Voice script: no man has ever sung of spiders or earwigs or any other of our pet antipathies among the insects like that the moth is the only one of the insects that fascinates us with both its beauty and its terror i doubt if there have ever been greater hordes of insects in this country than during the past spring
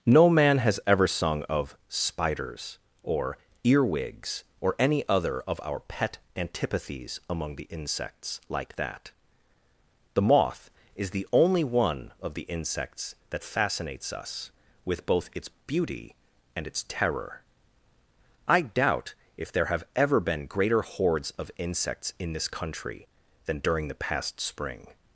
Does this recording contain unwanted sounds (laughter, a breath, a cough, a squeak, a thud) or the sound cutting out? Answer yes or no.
no